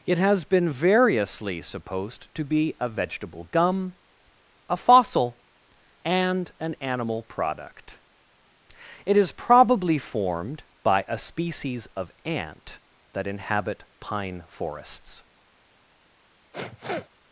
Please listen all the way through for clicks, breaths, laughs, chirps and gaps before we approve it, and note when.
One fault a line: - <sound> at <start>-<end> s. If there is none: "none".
- sniff at 16.5-17.1 s